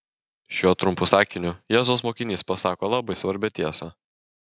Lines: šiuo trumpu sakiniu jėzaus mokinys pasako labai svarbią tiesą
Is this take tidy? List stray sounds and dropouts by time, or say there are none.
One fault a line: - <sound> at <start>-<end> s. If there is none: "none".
none